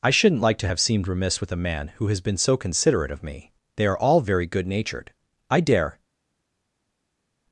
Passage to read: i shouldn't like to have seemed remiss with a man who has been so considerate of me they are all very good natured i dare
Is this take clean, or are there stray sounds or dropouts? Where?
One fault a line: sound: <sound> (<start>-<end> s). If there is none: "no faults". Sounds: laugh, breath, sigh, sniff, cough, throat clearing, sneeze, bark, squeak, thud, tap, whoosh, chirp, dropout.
no faults